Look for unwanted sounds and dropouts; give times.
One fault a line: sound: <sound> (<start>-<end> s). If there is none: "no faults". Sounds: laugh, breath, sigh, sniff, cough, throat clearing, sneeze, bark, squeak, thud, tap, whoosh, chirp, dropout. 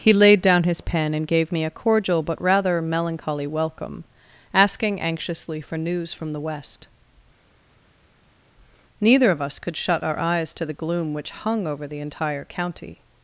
no faults